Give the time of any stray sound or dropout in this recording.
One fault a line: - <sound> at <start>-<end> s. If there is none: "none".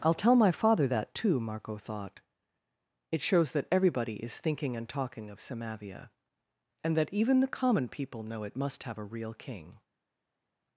none